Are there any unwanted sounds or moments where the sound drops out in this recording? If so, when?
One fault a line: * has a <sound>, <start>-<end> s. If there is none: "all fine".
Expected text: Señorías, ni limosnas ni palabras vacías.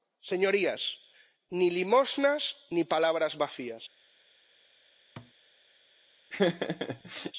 * has a thud, 5.2-5.3 s
* has a laugh, 6.3-7.3 s